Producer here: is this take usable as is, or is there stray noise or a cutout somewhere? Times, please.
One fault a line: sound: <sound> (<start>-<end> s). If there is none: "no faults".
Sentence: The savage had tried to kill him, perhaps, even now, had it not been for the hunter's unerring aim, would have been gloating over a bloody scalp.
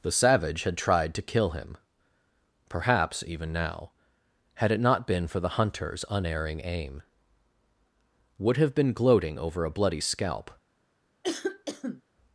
sound: cough (11.2-12.0 s)